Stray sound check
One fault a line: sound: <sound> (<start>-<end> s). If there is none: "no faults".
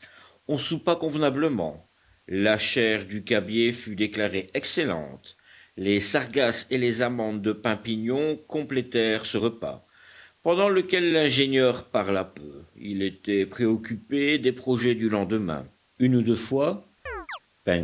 sound: chirp (17.1-17.4 s)